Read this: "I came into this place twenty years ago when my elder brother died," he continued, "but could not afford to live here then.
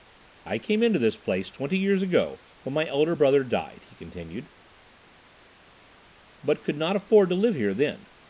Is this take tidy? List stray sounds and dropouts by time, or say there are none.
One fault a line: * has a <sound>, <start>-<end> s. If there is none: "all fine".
all fine